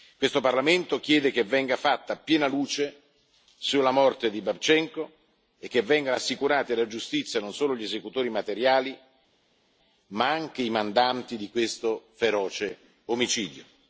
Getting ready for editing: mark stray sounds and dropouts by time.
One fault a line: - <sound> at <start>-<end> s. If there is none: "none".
none